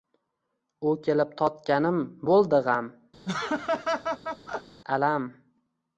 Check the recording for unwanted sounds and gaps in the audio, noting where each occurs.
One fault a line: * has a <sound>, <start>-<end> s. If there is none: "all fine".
* has a laugh, 3.2-4.8 s